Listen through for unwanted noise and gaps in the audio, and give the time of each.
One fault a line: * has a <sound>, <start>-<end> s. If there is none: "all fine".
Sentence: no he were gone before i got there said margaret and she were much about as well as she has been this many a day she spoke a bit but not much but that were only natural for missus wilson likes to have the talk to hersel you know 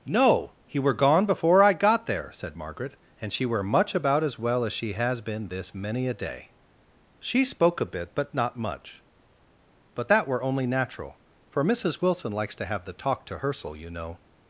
all fine